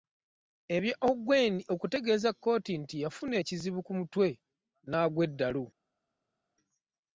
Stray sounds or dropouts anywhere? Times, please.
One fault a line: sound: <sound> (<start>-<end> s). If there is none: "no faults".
no faults